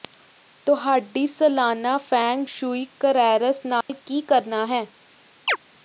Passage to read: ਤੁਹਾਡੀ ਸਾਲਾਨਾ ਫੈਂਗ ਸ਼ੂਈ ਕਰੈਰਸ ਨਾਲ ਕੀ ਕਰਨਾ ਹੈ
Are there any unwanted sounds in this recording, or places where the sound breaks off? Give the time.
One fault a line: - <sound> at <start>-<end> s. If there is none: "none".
- dropout at 3.8-3.9 s
- chirp at 5.5-5.6 s